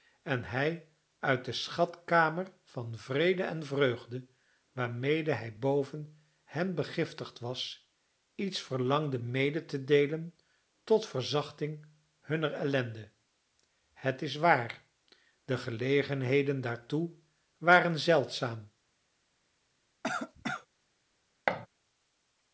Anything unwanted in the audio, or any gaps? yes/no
yes